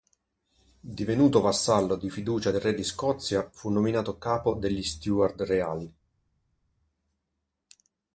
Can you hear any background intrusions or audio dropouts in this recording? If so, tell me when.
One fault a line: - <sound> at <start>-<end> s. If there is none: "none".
none